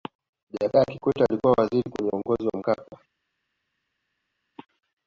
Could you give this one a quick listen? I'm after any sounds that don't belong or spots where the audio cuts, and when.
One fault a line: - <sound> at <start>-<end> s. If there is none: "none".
none